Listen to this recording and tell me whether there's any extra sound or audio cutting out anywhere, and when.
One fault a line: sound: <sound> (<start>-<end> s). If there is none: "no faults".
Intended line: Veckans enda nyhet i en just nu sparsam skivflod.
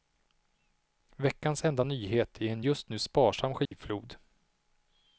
sound: dropout (3.7-3.7 s)